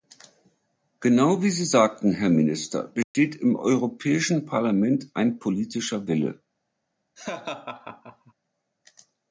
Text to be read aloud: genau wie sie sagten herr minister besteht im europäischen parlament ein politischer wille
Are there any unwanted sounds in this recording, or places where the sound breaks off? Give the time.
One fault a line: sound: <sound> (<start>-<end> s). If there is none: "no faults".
sound: dropout (3.0-3.1 s)
sound: laugh (7.2-8.3 s)